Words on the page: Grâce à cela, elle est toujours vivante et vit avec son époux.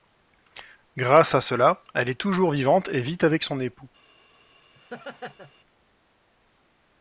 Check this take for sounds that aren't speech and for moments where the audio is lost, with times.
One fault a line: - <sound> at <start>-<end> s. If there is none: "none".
- laugh at 4.7-5.5 s